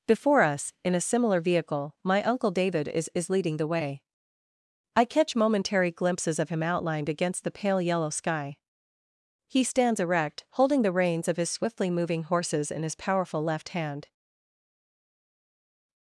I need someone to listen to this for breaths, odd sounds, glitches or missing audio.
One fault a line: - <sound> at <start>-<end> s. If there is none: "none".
none